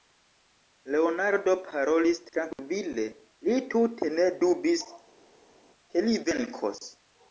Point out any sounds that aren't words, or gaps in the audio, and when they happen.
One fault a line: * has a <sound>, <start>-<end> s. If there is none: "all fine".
all fine